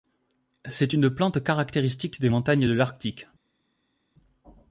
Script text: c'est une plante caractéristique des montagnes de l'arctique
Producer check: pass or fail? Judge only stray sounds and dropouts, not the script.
pass